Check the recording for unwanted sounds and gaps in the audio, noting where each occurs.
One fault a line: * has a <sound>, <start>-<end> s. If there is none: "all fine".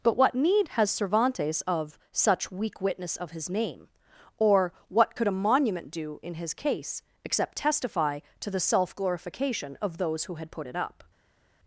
all fine